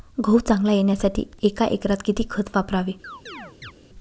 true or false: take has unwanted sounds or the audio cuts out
true